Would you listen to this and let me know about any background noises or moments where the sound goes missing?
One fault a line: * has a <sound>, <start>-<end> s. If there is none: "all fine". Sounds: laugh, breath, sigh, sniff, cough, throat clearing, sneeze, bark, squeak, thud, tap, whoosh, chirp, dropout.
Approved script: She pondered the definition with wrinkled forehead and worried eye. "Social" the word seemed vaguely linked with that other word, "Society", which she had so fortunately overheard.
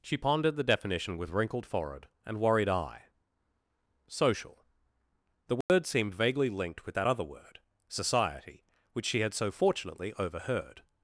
* has a dropout, 5.6-5.7 s